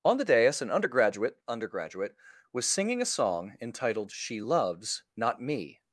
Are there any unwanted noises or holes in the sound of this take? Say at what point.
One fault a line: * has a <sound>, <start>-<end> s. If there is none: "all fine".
all fine